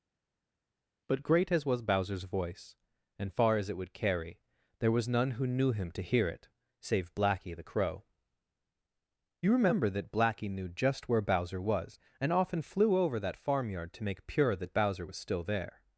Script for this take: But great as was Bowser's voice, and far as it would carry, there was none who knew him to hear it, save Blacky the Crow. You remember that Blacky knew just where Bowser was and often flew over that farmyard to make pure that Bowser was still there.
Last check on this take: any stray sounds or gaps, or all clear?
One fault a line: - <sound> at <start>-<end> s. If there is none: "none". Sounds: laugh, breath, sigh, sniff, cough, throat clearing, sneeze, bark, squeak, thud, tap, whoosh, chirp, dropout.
none